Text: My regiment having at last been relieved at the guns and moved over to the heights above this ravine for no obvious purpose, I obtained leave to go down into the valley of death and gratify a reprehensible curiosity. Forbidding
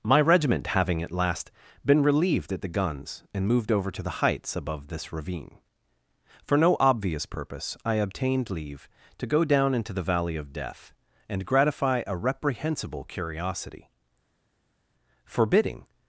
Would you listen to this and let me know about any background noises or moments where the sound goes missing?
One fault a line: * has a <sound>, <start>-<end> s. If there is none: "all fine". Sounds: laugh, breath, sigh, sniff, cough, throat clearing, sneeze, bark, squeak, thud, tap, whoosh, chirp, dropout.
all fine